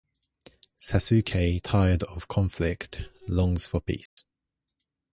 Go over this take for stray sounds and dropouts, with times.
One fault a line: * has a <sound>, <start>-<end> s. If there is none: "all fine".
* has a dropout, 4.1-4.2 s